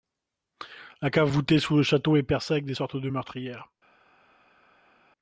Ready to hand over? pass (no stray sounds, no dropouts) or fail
pass